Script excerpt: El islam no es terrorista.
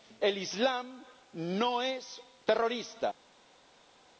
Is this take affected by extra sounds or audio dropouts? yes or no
no